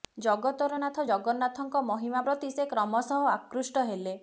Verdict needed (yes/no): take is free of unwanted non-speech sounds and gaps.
yes